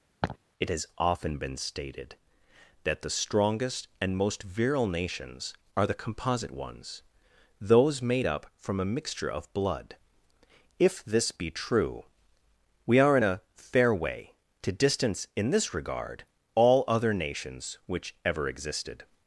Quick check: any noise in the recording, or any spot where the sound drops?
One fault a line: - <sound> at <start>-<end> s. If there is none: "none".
- laugh at 0.2-0.4 s